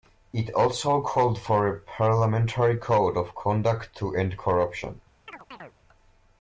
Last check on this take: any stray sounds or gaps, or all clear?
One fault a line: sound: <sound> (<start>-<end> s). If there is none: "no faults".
sound: chirp (5.3-5.7 s)